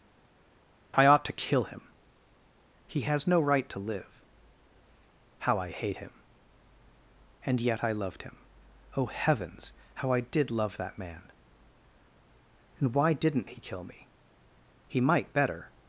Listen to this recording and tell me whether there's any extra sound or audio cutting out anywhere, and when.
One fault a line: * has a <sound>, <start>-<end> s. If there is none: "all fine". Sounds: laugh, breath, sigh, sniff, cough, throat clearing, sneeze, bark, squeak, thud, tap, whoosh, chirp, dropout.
all fine